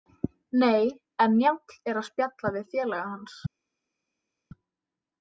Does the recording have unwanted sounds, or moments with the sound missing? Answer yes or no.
no